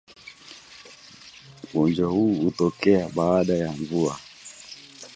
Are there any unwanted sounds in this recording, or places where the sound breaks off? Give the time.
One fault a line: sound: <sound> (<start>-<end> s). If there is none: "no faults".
no faults